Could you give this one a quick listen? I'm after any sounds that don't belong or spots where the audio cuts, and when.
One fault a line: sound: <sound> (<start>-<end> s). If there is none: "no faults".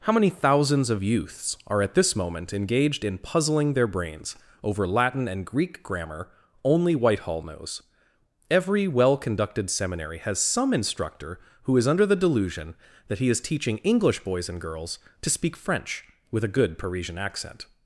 no faults